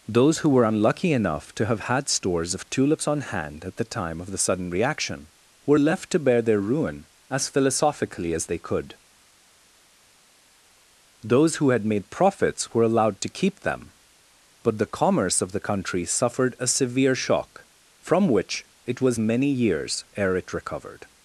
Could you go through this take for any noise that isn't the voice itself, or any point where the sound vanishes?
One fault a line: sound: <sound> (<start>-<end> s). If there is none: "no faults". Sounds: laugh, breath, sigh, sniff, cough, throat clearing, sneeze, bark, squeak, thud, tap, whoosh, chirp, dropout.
no faults